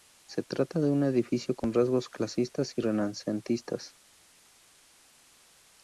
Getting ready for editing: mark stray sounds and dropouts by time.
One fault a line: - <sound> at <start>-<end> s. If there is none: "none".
none